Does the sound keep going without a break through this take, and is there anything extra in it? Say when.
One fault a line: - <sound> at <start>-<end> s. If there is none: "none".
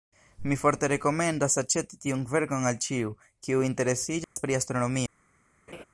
- dropout at 4.2-4.4 s
- laugh at 5.7-5.8 s